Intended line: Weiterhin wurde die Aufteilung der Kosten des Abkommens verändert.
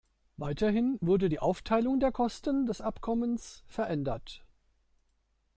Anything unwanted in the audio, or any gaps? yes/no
no